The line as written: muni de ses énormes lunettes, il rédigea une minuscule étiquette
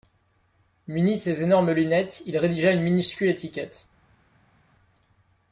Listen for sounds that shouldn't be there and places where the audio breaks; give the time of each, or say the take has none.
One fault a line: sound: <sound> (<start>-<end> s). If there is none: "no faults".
no faults